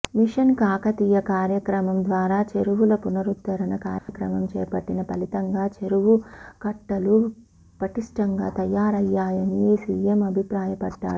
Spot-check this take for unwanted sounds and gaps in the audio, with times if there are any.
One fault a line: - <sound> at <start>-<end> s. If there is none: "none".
- dropout at 4.0-4.1 s